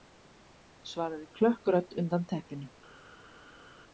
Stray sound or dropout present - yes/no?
no